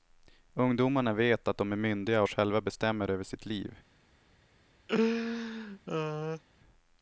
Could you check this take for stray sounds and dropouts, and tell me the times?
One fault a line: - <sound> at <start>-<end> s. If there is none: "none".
- laugh at 4.9-6.4 s